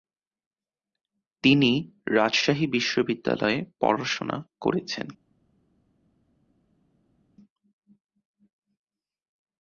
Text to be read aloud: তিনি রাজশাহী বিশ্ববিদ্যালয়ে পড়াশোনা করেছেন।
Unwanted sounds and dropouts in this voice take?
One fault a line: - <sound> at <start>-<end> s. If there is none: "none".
none